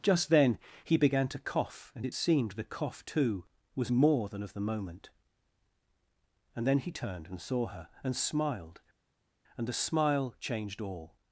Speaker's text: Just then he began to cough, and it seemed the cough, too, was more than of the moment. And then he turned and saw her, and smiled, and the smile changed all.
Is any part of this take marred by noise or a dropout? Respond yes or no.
no